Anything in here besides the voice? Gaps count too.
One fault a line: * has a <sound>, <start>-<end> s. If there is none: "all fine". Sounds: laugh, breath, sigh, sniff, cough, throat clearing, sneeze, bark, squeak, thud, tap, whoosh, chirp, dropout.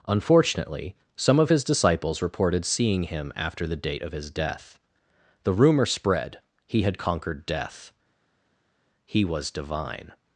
all fine